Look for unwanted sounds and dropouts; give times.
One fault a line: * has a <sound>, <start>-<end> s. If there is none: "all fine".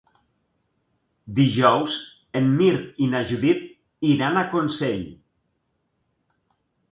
all fine